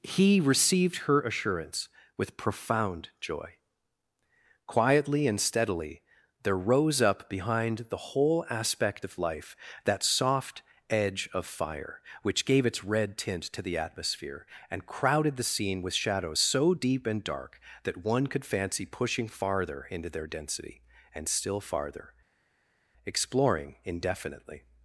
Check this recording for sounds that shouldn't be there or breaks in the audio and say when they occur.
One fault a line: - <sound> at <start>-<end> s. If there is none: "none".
none